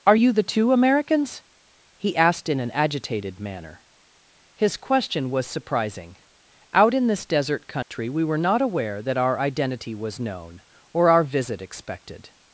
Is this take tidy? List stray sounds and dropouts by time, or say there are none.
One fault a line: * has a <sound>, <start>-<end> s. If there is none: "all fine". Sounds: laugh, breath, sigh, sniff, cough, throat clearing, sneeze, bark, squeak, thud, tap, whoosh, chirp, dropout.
* has a dropout, 7.8-7.9 s